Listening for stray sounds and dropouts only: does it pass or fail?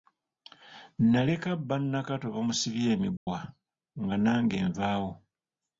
fail